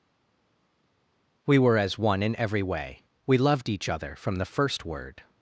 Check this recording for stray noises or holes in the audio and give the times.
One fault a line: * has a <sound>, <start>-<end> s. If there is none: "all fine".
all fine